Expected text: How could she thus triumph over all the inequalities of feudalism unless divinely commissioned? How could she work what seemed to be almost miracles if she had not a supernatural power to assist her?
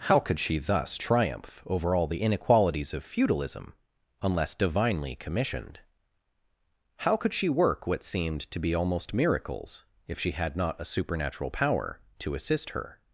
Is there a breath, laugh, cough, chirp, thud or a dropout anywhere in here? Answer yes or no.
no